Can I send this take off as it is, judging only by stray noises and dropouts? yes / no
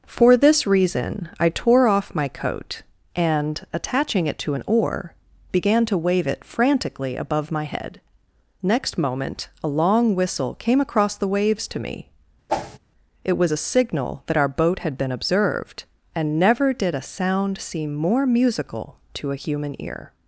no